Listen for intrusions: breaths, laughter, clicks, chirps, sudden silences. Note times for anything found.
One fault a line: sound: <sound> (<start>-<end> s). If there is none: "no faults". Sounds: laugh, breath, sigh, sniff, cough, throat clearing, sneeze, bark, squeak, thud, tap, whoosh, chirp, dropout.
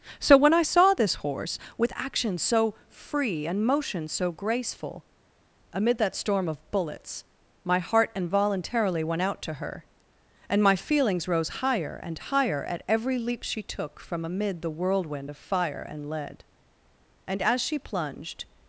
no faults